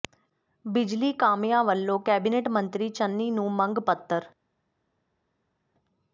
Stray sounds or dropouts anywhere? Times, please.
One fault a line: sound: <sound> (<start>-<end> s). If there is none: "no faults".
no faults